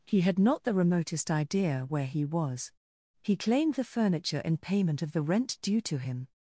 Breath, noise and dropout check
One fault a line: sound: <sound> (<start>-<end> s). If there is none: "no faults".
no faults